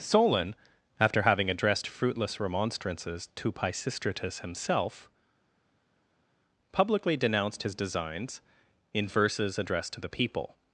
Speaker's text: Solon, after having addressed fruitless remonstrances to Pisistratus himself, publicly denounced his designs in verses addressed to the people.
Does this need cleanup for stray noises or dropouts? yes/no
no